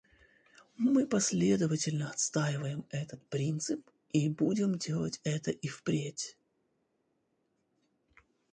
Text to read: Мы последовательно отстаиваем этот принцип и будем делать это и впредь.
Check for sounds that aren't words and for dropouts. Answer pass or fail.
pass